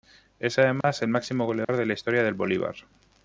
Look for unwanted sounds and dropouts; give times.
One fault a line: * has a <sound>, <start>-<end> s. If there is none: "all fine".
* has a dropout, 0.8-0.8 s
* has a dropout, 1.6-1.7 s